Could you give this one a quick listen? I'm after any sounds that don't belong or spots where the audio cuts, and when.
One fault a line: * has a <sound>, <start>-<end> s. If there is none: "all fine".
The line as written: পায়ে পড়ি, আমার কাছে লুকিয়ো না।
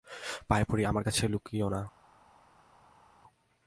all fine